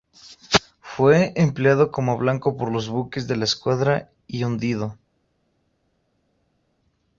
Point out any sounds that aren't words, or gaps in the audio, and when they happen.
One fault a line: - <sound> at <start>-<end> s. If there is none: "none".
none